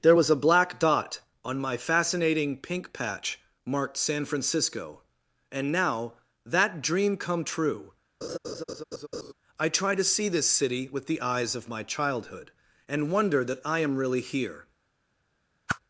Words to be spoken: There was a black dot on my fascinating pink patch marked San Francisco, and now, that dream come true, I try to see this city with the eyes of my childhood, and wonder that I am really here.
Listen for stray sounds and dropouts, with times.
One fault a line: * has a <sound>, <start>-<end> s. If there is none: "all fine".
* has a laugh, 8.2-9.3 s
* has a whoosh, 15.7-15.8 s